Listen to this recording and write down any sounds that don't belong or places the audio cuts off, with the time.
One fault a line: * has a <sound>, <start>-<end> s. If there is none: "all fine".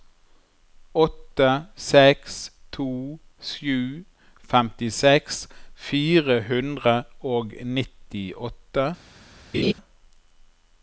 * has a laugh, 9.5-9.7 s